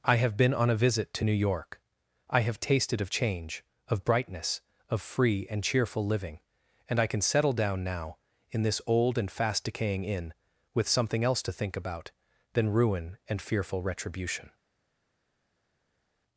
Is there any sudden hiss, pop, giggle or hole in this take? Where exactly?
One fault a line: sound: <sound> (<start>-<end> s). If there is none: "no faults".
no faults